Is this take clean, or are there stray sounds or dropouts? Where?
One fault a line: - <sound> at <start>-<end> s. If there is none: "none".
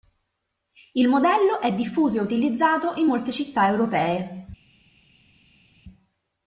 none